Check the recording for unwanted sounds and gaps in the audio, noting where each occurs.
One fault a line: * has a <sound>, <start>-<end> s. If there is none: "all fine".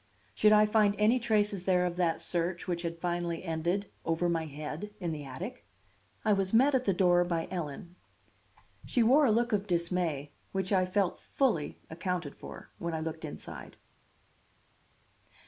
all fine